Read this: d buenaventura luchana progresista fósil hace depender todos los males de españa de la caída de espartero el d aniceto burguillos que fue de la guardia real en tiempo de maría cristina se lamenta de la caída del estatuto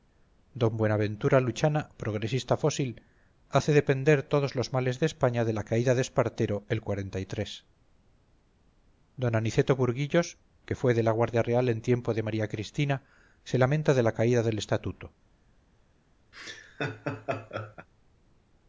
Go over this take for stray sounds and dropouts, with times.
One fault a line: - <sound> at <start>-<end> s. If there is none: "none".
- laugh at 16.3-17.9 s